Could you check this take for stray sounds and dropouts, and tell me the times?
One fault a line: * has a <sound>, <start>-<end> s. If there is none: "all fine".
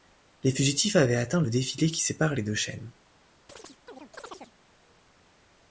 * has a chirp, 3.5-4.5 s